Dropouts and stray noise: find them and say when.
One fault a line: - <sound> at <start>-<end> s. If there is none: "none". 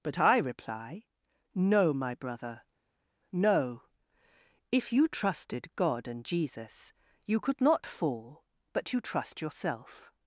none